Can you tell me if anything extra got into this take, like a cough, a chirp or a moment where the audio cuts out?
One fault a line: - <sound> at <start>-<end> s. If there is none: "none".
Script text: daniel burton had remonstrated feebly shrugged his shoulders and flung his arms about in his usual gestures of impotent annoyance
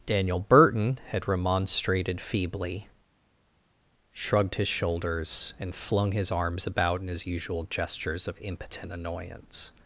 none